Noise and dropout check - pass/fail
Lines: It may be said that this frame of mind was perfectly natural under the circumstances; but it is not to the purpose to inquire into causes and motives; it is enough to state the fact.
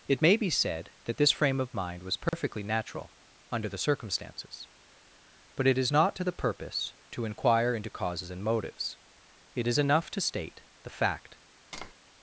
fail